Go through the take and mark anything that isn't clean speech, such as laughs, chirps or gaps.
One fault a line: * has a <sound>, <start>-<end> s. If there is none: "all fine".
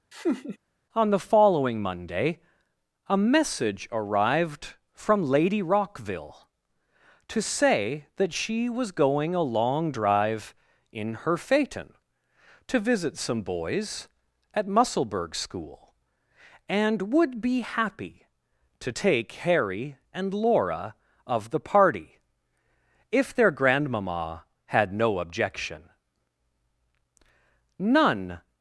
* has a laugh, 0.1-0.6 s